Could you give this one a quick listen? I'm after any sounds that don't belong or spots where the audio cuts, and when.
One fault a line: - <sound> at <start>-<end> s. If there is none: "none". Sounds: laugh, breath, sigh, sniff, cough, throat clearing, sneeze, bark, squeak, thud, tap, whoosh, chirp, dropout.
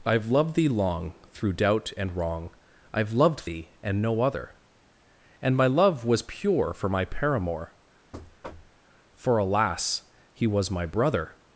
- thud at 8.1-8.8 s